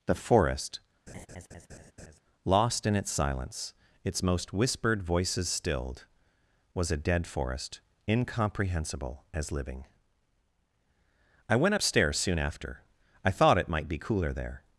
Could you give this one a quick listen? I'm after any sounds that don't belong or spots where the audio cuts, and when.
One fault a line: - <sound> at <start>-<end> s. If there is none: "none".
- laugh at 1.1-2.2 s